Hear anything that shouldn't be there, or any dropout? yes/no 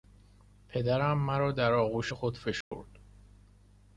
yes